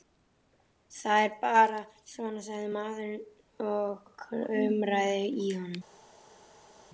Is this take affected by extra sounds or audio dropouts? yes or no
no